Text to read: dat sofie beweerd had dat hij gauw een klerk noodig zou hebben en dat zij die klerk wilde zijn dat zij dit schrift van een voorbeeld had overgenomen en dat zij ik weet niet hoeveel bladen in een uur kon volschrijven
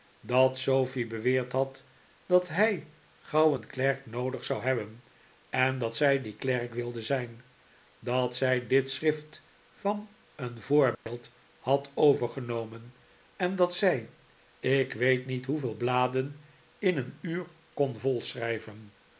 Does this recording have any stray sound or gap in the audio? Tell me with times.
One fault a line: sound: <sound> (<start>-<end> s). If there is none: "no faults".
sound: dropout (10.9-11.1 s)